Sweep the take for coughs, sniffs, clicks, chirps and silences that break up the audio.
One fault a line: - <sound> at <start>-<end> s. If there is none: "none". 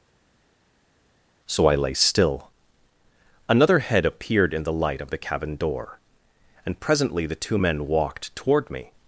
none